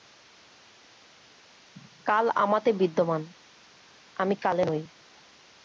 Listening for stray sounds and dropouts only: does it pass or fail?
pass